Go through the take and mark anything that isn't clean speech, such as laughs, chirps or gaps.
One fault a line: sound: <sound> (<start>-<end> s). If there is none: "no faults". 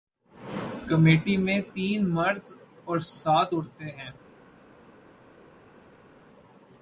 no faults